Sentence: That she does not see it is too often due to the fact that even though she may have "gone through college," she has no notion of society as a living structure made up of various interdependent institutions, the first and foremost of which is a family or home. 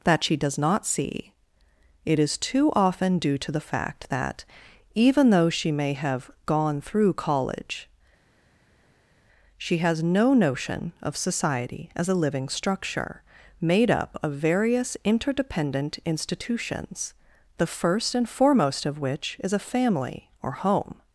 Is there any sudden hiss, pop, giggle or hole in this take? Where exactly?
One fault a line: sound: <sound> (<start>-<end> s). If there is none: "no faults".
no faults